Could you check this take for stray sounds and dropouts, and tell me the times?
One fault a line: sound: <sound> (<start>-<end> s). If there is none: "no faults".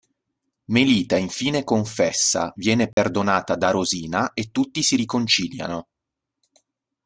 sound: dropout (2.9-3.0 s)